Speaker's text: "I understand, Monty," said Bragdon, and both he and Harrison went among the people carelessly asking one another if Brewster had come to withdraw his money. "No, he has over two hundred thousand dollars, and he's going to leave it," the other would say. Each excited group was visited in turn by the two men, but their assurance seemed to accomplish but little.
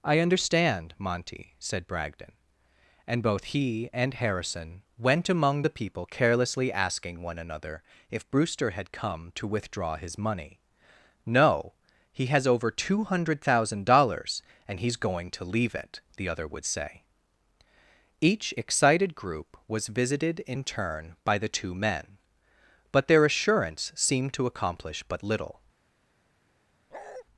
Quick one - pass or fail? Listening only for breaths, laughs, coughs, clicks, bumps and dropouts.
fail